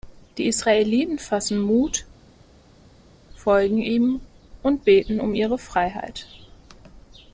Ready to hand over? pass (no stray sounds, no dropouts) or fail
pass